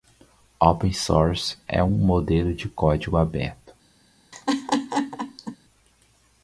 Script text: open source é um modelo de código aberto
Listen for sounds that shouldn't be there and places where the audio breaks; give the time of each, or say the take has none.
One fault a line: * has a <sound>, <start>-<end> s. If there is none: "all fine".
* has a laugh, 4.3-5.6 s